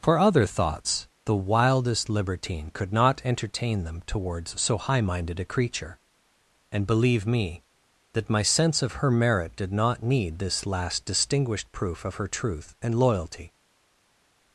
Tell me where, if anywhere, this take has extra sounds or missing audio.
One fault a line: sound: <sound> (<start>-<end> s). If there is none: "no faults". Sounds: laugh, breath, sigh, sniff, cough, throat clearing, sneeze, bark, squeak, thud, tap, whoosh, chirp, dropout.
no faults